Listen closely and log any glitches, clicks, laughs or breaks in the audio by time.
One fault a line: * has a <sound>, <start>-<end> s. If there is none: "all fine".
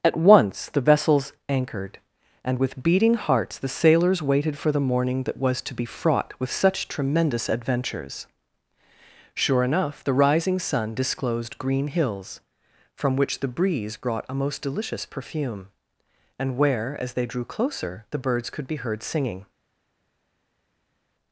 all fine